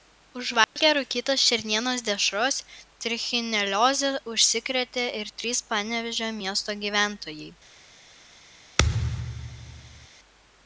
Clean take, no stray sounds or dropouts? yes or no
no